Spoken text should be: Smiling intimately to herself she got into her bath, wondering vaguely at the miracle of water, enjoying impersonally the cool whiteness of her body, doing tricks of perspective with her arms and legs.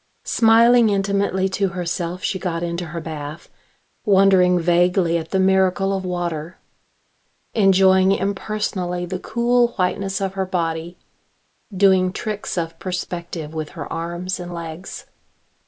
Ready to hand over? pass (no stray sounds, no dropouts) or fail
pass